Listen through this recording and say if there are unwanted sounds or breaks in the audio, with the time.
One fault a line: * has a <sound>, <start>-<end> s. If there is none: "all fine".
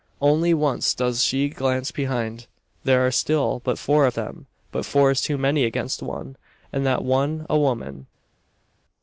all fine